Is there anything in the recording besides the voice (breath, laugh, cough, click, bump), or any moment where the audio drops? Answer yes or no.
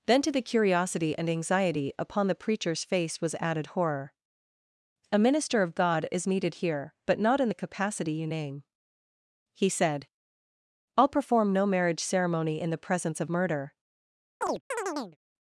yes